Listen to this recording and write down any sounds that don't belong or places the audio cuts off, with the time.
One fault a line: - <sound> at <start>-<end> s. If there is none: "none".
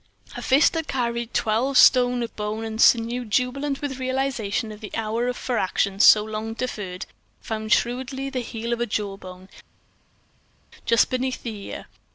none